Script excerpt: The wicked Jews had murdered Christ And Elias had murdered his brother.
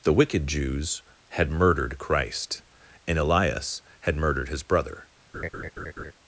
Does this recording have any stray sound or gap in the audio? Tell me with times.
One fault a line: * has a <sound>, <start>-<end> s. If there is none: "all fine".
* has a laugh, 5.3-6.1 s